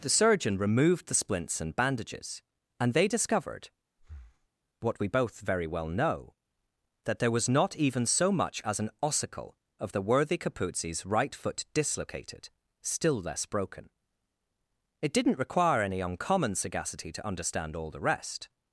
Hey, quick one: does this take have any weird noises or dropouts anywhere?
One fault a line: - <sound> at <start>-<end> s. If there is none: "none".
- breath at 4.0-4.5 s